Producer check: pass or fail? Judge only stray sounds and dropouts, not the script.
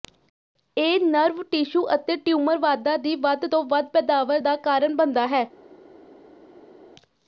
pass